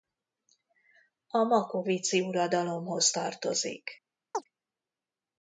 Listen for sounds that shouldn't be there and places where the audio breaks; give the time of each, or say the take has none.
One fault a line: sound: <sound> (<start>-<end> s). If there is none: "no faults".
sound: chirp (4.3-4.4 s)